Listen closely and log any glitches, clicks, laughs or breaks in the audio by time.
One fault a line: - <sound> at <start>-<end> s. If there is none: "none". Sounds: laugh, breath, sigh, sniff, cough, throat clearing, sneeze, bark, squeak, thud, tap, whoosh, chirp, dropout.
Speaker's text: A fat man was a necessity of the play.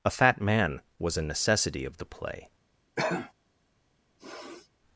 - cough at 3.0-3.3 s
- sniff at 4.2-4.7 s